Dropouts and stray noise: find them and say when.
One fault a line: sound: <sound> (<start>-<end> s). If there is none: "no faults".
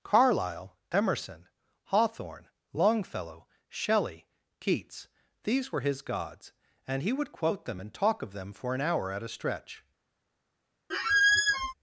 sound: squeak (10.9-11.7 s)